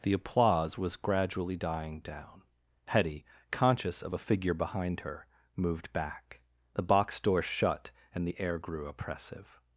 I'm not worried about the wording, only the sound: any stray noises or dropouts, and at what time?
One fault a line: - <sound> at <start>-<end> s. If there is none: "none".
none